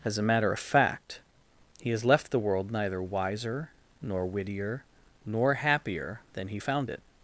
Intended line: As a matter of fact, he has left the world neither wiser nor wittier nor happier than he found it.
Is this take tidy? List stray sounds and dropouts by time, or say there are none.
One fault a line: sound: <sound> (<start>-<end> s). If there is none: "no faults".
no faults